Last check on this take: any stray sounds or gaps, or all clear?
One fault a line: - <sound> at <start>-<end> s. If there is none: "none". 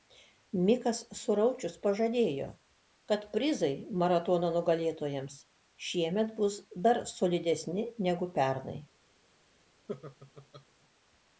- laugh at 9.9-10.7 s